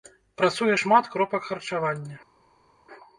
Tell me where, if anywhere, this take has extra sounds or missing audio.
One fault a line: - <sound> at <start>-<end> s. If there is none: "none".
none